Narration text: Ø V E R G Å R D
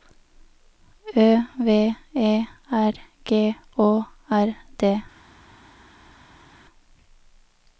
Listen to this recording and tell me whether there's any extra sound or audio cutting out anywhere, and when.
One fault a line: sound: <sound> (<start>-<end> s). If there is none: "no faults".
no faults